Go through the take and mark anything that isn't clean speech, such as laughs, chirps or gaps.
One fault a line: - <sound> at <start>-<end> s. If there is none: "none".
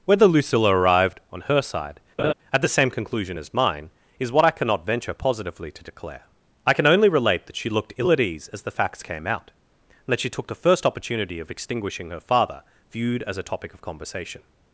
- laugh at 2.2-2.3 s